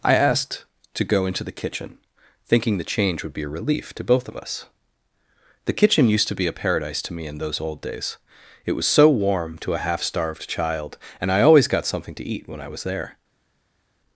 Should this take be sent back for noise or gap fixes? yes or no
no